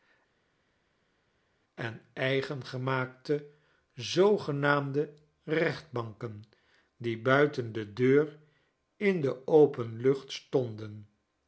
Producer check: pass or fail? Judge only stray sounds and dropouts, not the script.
pass